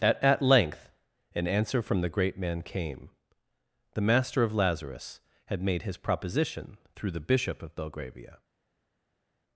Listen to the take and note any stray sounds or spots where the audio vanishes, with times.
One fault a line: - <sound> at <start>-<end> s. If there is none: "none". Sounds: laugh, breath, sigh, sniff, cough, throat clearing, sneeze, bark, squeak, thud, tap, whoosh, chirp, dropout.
none